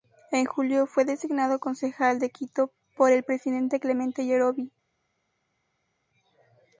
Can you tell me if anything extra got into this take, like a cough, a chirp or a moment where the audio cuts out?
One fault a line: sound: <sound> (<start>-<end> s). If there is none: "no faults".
no faults